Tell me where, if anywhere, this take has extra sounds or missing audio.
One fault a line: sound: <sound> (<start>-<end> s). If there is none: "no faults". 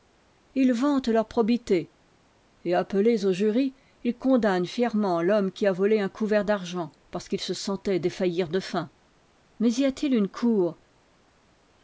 no faults